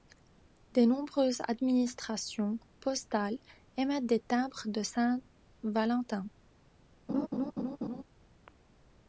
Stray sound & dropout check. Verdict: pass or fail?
fail